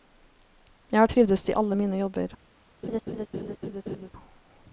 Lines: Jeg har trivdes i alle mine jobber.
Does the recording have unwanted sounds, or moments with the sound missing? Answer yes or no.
yes